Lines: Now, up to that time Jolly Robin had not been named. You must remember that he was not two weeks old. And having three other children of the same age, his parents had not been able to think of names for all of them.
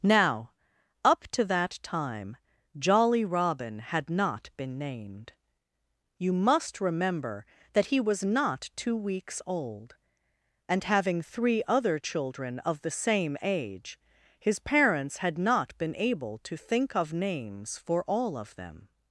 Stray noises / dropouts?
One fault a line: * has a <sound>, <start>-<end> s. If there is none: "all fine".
all fine